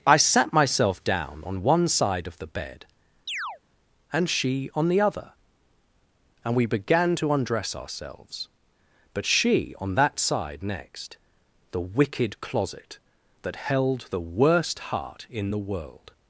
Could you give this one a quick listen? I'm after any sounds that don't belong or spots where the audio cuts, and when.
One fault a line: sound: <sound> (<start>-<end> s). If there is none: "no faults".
sound: chirp (3.3-3.6 s)